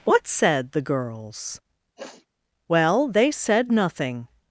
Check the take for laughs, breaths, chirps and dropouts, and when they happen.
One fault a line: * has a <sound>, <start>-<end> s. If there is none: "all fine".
* has a sniff, 2.0-2.3 s